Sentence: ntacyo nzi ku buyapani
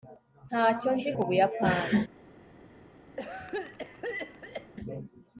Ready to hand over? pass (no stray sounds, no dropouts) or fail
fail